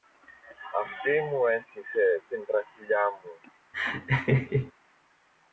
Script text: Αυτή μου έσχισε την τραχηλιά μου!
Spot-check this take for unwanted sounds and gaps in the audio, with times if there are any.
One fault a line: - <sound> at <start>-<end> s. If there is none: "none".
- laugh at 3.7-4.7 s